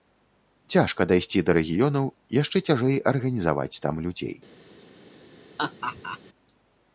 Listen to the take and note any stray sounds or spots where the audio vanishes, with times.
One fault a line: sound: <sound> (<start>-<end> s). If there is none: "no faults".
sound: laugh (5.6-6.2 s)